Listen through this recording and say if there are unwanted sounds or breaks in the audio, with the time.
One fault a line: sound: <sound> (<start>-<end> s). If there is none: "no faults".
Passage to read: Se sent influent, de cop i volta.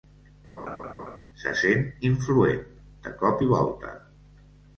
sound: laugh (0.6-1.2 s)